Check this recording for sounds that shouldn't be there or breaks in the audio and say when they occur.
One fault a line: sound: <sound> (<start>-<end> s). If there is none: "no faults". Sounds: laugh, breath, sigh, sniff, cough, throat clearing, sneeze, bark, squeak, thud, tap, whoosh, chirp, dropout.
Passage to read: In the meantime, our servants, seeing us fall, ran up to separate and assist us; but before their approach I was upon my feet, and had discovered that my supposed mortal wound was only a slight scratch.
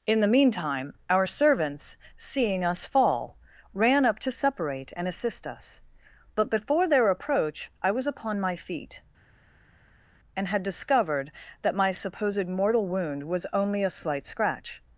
no faults